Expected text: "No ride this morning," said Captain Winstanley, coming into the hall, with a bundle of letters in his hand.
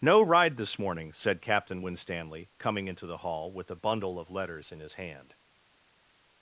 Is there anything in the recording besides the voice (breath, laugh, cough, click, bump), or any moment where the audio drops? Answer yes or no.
no